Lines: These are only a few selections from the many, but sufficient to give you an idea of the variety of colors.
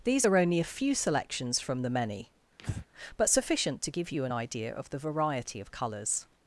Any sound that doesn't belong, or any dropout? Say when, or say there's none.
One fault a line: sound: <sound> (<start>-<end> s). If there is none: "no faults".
sound: breath (2.6-2.9 s)